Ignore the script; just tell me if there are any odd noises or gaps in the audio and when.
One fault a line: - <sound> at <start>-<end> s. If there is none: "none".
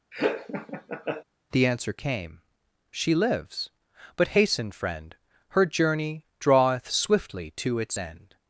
- laugh at 0.1-1.2 s